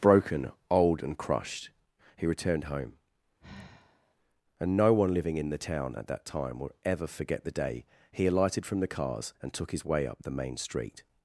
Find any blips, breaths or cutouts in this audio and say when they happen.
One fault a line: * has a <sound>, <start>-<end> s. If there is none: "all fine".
* has a sigh, 3.4-4.2 s